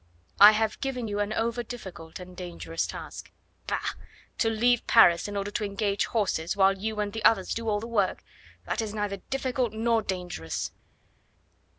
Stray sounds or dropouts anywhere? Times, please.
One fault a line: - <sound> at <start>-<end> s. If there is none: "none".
none